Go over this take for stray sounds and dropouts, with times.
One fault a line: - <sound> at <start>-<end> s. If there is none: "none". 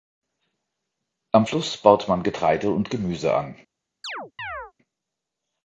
- chirp at 4.0-4.7 s